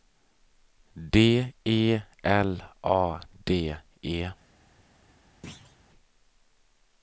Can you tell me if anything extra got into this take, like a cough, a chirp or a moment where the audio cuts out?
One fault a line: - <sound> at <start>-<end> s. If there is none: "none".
- thud at 5.4-5.8 s